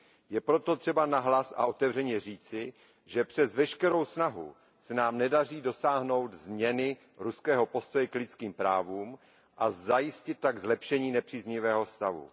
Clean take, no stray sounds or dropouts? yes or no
yes